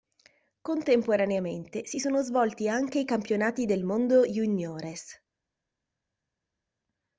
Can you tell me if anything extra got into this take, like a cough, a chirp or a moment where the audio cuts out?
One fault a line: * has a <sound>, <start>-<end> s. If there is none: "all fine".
all fine